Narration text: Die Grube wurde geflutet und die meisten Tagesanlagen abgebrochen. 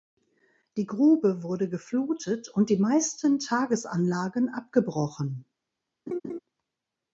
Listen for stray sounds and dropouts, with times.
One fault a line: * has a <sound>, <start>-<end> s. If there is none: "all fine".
* has a laugh, 6.1-6.4 s